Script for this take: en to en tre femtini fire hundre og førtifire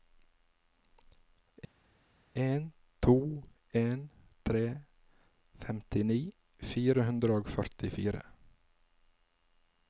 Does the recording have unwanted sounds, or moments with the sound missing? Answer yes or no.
no